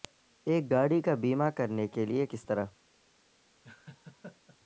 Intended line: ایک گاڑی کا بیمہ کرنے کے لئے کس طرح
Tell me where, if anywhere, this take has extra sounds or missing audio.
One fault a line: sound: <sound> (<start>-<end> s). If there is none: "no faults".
sound: laugh (3.6-4.6 s)